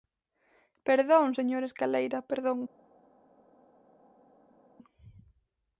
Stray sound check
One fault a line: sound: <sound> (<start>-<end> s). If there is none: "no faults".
no faults